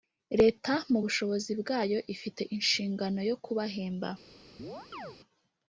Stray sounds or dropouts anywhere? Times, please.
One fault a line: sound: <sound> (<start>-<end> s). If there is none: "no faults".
sound: chirp (4.6-5.2 s)